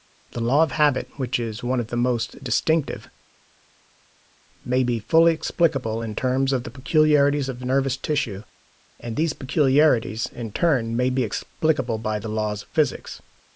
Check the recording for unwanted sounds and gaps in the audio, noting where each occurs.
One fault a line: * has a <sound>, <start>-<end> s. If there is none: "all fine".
all fine